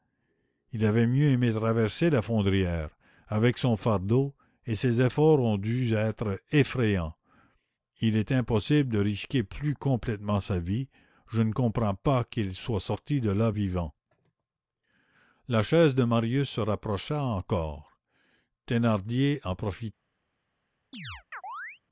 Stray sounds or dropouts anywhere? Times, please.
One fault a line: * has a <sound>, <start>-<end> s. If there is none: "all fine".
* has a chirp, 20.9-21.8 s